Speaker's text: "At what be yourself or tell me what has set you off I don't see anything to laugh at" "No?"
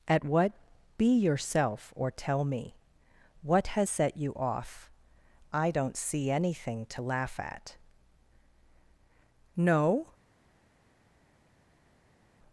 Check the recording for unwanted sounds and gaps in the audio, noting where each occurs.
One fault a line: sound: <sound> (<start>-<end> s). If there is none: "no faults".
no faults